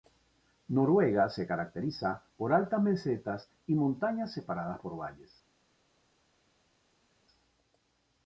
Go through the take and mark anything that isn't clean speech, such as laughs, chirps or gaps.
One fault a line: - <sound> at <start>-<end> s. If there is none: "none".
none